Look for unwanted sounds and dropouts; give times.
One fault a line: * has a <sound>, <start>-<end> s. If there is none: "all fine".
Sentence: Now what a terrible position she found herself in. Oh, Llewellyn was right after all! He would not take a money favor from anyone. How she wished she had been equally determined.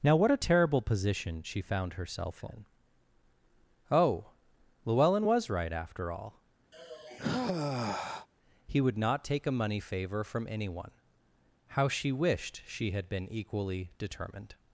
* has a sigh, 6.7-8.3 s